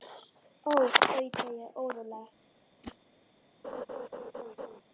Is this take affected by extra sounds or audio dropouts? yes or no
yes